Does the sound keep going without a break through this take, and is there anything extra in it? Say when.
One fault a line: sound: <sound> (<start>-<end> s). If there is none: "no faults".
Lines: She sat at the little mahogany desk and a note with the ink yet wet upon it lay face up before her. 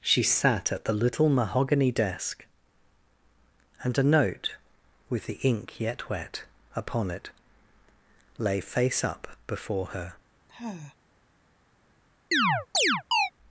sound: sigh (10.5-11.0 s)
sound: chirp (12.3-13.3 s)